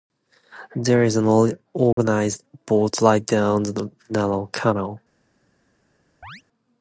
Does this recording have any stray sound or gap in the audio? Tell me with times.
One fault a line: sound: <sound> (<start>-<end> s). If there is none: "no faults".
sound: dropout (1.9-2.0 s)
sound: chirp (6.2-6.4 s)